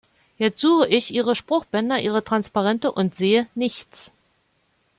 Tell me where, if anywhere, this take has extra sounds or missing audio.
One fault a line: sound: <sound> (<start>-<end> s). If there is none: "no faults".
no faults